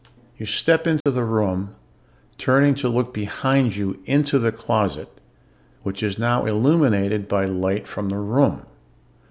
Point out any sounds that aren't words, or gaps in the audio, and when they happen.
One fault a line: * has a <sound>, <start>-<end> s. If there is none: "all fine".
* has a dropout, 1.0-1.1 s